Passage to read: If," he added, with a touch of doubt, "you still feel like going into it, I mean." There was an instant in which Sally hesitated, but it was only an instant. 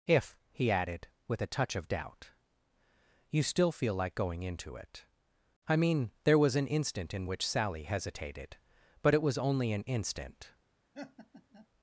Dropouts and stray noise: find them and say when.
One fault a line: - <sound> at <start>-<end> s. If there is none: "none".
- laugh at 10.9-11.7 s